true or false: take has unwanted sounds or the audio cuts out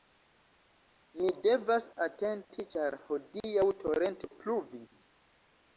false